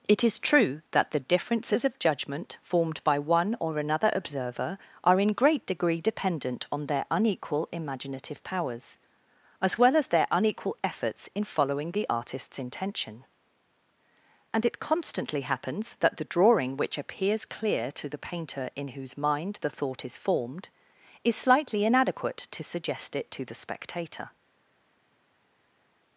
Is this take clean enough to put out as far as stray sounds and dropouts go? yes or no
yes